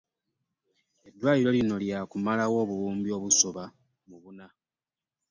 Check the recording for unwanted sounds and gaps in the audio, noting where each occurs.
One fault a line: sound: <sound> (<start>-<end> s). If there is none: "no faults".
no faults